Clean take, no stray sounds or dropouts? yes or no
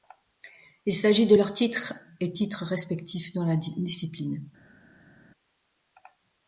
yes